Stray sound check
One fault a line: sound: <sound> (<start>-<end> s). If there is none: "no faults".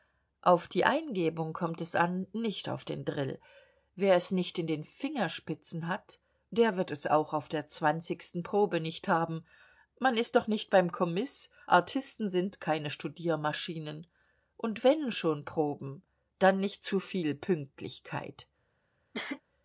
sound: cough (19.1-19.4 s)